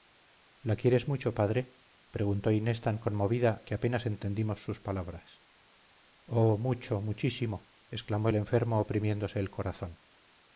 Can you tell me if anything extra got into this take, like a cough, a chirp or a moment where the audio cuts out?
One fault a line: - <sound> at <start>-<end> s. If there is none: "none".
none